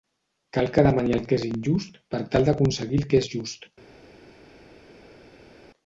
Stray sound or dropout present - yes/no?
no